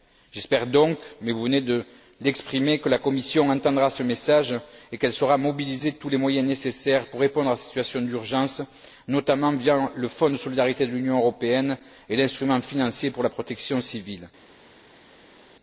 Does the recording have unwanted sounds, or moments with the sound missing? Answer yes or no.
no